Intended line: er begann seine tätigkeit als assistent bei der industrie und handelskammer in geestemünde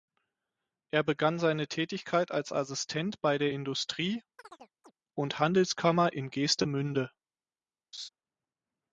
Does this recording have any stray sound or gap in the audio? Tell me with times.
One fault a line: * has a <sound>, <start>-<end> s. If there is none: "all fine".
* has a chirp, 4.4-4.9 s
* has a laugh, 7.9-8.1 s